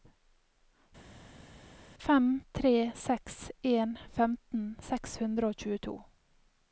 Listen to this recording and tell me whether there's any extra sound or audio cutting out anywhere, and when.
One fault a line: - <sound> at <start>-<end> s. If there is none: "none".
none